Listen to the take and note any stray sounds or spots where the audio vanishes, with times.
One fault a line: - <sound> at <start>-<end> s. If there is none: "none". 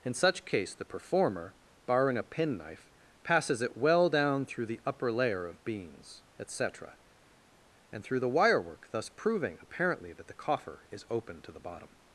none